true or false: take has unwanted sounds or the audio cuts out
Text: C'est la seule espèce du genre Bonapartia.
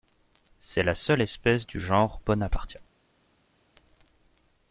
false